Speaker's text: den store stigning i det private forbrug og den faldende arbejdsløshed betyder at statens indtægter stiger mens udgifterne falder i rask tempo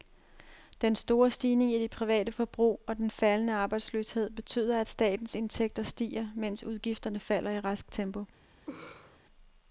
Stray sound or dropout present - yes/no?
yes